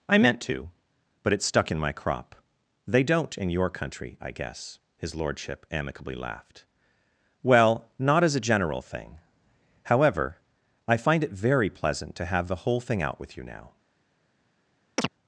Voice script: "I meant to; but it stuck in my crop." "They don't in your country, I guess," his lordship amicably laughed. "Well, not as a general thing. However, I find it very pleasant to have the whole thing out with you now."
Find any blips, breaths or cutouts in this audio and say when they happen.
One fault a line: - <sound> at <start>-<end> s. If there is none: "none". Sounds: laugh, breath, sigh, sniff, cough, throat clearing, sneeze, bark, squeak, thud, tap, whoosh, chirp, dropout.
- chirp at 15.0-15.1 s